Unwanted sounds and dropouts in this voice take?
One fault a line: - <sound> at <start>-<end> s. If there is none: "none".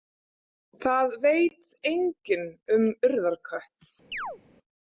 - chirp at 4.1-4.4 s